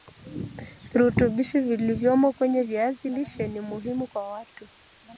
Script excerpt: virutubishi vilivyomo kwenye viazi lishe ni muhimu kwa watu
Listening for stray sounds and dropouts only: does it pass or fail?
pass